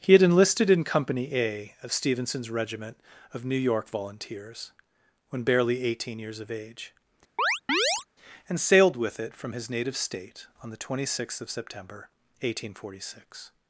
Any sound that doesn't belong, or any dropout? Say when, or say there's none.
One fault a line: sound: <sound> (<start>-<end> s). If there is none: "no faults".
sound: chirp (7.4-8.1 s)